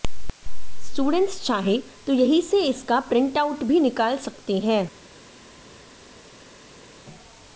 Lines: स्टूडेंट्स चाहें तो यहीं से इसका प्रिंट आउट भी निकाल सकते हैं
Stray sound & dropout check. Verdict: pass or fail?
pass